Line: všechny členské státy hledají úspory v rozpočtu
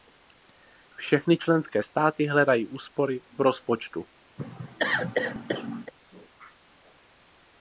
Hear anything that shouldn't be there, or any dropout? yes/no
yes